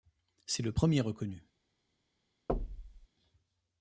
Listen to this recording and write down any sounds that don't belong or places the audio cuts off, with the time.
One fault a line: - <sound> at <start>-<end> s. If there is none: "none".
- thud at 2.5-3.1 s